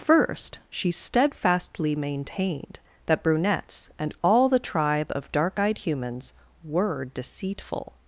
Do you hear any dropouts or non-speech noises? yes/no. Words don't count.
no